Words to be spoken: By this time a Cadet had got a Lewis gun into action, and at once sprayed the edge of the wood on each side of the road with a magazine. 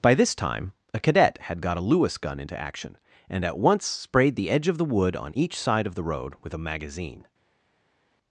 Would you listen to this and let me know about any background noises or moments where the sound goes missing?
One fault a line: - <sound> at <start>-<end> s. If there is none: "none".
none